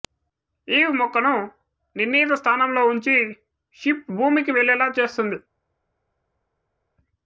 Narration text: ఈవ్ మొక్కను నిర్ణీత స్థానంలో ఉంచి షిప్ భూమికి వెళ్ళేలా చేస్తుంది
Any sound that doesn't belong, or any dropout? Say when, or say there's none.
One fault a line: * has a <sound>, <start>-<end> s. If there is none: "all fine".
all fine